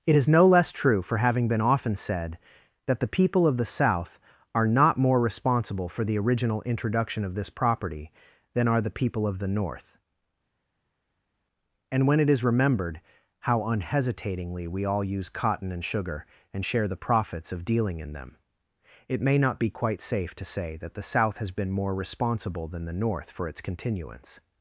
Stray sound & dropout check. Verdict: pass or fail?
pass